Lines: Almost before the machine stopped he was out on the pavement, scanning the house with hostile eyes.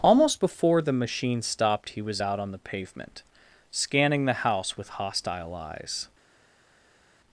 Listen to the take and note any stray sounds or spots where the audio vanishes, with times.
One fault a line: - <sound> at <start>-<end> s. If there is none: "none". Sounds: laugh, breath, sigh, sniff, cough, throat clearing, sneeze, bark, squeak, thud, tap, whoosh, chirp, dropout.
none